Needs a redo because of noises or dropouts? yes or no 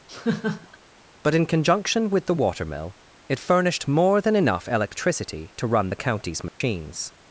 yes